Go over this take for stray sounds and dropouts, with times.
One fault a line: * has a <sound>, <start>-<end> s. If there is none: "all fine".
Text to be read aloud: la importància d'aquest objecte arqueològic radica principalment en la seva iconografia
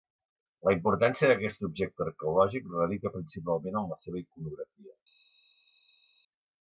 all fine